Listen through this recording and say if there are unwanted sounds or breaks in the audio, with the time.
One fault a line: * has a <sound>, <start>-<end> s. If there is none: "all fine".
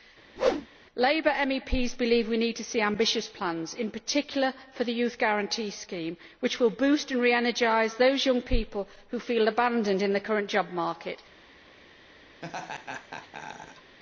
* has a whoosh, 0.4-0.7 s
* has a laugh, 12.4-14.0 s